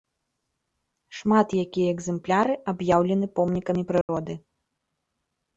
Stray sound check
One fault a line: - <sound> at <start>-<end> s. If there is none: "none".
- dropout at 4.0-4.1 s